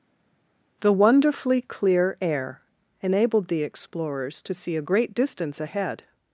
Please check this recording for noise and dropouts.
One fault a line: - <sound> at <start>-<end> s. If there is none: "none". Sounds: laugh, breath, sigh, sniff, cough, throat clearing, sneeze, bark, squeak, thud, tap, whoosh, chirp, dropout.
none